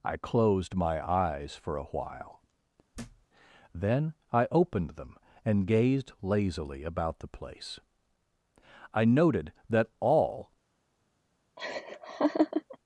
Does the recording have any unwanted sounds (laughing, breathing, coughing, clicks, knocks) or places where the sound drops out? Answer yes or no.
yes